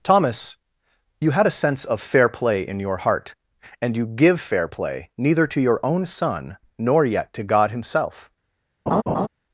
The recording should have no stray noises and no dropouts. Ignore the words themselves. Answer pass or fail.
fail